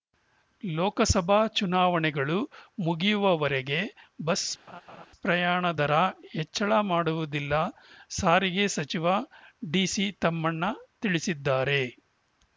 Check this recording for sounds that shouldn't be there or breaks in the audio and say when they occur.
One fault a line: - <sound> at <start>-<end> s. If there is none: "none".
- laugh at 4.7-5.1 s